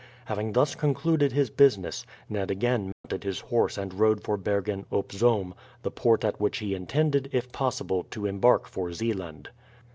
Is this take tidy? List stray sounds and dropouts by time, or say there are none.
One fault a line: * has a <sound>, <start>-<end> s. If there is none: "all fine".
* has a dropout, 2.9-3.0 s